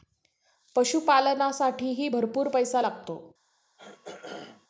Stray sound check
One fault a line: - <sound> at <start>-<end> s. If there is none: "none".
- throat clearing at 3.8-4.7 s